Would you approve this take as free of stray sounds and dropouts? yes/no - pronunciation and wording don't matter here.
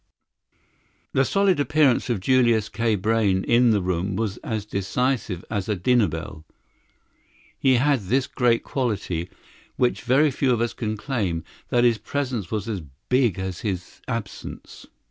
yes